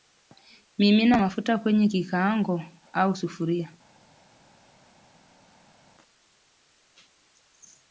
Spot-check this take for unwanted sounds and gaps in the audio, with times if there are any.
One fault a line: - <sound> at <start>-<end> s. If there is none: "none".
none